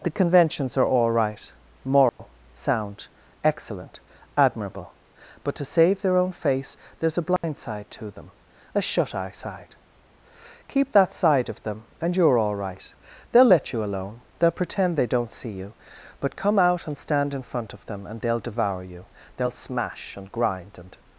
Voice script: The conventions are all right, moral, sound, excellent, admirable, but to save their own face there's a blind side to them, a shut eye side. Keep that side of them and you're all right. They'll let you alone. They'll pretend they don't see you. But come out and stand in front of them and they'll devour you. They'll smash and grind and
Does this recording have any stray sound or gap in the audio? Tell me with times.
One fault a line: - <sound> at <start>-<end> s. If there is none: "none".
- dropout at 2.1-2.2 s
- dropout at 7.4-7.4 s